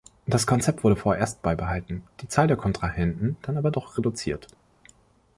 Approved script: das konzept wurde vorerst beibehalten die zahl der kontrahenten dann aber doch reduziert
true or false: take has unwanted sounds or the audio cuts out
false